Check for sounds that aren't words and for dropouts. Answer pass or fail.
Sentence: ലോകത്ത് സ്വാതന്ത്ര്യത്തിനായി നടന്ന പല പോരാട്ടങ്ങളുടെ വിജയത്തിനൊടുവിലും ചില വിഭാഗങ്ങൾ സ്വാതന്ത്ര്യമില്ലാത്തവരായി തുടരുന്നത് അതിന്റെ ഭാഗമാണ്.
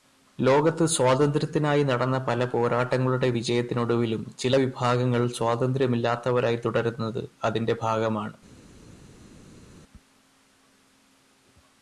pass